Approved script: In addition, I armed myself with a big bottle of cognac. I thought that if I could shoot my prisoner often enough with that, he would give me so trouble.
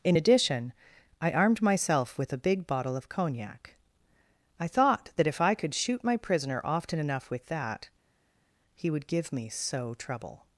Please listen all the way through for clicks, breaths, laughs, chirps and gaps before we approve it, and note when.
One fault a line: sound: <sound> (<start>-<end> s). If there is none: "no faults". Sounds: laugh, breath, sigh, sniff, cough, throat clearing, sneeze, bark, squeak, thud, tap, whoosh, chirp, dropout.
no faults